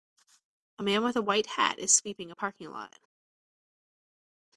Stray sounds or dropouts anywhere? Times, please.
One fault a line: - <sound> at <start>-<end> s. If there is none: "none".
none